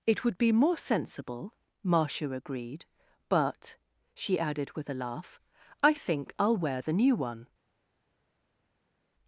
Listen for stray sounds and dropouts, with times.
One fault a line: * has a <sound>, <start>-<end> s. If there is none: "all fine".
all fine